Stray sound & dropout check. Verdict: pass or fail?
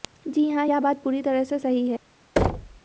fail